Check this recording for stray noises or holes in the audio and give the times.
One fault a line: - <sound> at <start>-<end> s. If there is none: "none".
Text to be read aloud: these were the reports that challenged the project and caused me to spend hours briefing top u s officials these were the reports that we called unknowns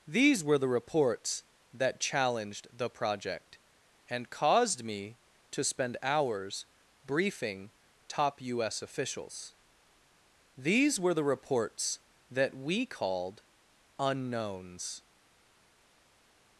none